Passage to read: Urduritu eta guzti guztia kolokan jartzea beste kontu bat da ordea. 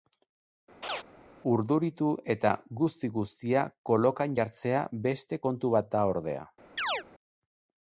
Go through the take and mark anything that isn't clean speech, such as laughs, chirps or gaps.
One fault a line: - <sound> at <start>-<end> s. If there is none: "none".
- laugh at 0.8-1.0 s
- chirp at 6.8-7.0 s